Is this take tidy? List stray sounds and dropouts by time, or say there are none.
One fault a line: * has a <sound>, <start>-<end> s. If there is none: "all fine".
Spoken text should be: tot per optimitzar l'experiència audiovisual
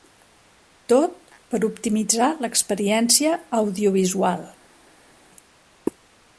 all fine